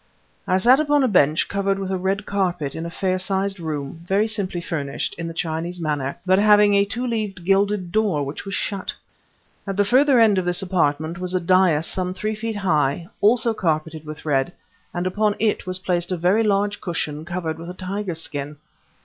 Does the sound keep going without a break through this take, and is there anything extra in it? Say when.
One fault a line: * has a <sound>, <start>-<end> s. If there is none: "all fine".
all fine